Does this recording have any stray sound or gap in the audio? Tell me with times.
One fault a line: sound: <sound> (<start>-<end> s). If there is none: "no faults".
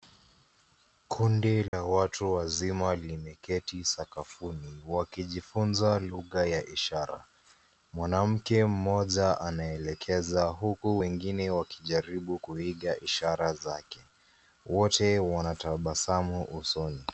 sound: dropout (1.7-1.7 s)